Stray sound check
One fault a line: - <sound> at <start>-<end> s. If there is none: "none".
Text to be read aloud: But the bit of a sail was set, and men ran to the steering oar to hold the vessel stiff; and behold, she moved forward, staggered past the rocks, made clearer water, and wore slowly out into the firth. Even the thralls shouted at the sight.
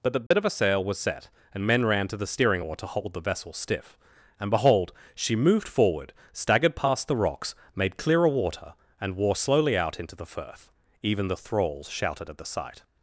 - dropout at 0.3-0.3 s